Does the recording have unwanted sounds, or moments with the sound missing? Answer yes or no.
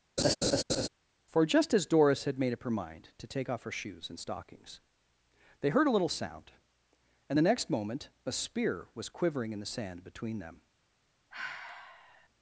yes